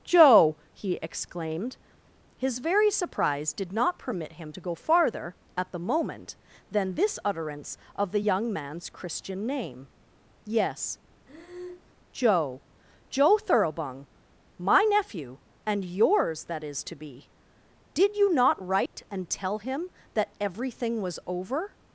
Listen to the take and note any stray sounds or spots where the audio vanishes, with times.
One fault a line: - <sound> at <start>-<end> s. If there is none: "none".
- breath at 11.3-11.9 s
- dropout at 18.9-18.9 s